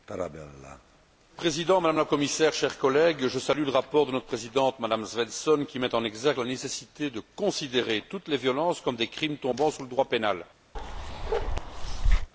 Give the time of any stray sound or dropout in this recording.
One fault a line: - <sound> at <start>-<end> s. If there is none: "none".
- bark at 10.7-12.3 s